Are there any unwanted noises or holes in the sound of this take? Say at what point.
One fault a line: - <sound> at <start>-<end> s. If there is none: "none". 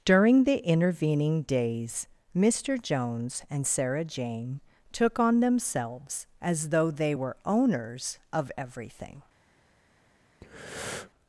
- breath at 10.4-11.1 s